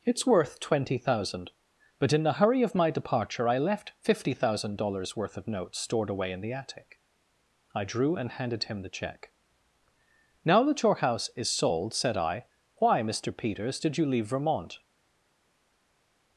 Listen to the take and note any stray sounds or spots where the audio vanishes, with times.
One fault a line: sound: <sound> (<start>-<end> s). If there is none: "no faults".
no faults